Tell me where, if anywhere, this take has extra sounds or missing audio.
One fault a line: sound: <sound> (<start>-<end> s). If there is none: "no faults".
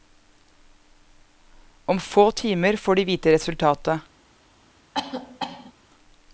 sound: cough (4.9-5.7 s)